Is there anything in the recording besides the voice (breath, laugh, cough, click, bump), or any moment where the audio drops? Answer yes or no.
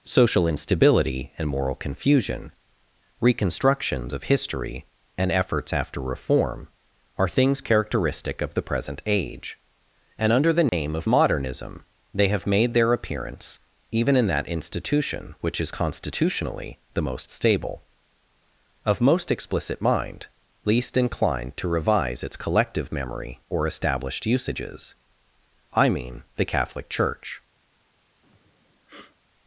yes